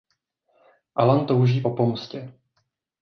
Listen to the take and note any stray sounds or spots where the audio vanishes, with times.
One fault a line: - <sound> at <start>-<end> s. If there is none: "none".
none